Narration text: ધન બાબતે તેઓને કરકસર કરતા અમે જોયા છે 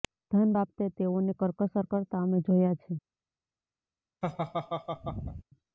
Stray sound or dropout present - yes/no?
yes